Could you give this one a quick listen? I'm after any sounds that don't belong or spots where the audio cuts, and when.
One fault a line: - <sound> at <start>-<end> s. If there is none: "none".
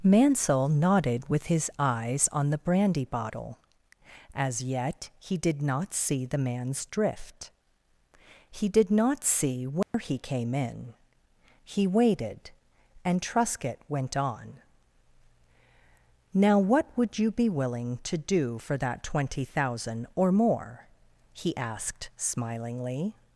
- dropout at 9.8-9.9 s